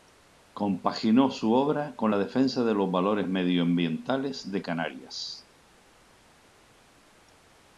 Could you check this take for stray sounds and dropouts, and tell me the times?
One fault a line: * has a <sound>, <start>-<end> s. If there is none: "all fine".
all fine